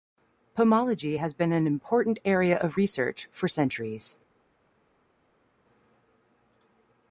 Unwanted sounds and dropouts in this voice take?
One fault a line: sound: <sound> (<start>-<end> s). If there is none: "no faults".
no faults